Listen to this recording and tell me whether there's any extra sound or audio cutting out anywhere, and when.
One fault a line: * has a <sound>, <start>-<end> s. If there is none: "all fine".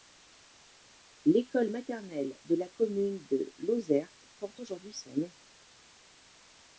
all fine